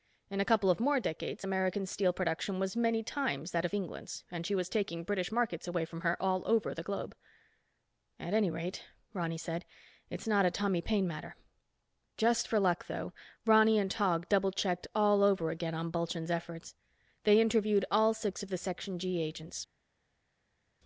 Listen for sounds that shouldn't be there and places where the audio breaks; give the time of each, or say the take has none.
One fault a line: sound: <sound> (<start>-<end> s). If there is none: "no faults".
no faults